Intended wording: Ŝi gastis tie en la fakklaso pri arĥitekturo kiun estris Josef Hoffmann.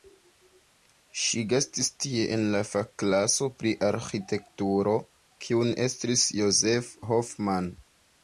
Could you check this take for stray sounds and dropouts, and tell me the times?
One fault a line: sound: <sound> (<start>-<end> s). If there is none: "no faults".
no faults